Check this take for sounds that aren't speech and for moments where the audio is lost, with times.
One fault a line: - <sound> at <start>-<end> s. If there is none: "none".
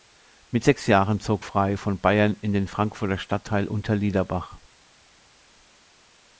none